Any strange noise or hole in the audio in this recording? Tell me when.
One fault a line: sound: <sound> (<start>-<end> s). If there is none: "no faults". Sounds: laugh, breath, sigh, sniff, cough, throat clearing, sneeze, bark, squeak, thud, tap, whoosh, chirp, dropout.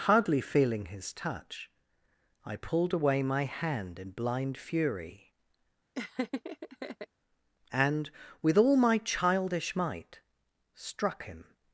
sound: laugh (5.9-7.1 s)